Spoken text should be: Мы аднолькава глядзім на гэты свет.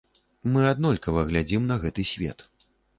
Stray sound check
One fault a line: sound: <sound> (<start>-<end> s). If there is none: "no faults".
no faults